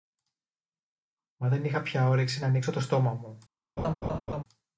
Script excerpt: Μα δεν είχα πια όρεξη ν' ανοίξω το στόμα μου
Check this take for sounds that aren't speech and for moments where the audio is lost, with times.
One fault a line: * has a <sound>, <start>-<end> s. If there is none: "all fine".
* has a laugh, 3.8-4.4 s